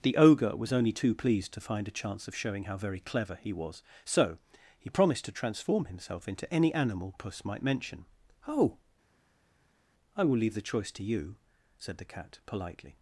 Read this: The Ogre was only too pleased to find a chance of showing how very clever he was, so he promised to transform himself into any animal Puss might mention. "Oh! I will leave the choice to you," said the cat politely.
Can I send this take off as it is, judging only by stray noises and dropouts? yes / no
yes